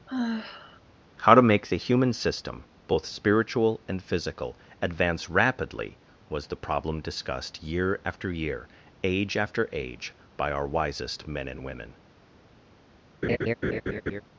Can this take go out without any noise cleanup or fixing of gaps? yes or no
no